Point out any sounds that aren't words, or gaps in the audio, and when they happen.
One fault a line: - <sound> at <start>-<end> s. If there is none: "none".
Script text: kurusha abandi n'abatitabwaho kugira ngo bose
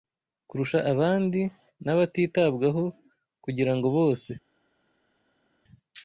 none